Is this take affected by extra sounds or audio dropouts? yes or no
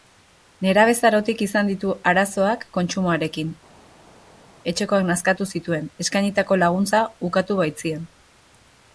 no